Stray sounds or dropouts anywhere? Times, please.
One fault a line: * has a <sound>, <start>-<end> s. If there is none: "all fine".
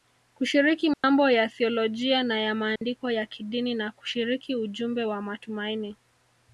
* has a dropout, 0.9-1.0 s
* has a dropout, 2.8-2.8 s